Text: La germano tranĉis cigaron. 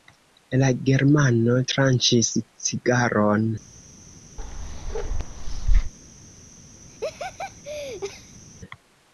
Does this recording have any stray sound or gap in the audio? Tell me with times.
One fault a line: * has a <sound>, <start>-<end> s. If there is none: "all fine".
* has a bark, 4.4-5.9 s
* has a laugh, 6.9-8.4 s